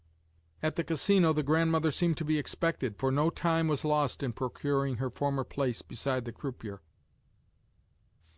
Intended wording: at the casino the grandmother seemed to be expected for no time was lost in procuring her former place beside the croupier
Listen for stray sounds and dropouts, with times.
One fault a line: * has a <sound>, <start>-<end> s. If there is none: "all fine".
all fine